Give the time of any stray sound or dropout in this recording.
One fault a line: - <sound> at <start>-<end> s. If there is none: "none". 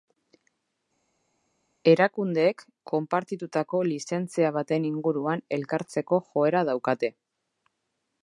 none